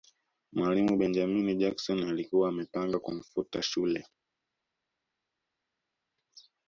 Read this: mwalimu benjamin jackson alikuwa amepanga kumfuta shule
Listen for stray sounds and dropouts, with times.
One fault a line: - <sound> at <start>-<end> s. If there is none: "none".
none